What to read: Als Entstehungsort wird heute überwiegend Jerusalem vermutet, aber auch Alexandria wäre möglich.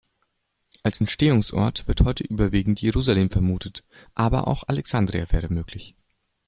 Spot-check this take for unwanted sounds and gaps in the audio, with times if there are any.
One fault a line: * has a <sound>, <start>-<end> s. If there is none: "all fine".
all fine